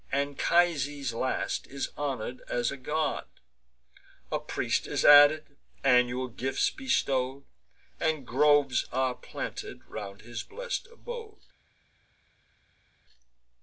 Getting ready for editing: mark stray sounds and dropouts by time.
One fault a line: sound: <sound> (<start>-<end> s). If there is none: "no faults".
no faults